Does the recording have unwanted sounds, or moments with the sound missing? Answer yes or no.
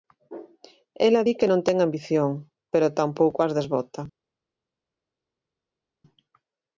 no